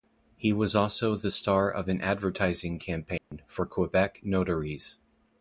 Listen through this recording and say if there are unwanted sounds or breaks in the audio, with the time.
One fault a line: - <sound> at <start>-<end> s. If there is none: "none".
- dropout at 3.2-3.3 s